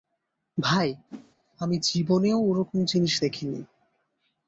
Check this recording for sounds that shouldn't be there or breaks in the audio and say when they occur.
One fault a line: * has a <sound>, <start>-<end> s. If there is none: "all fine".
* has a whoosh, 1.1-1.3 s